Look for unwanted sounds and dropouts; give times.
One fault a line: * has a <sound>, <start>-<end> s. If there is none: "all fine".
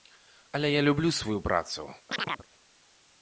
* has a chirp, 2.1-2.5 s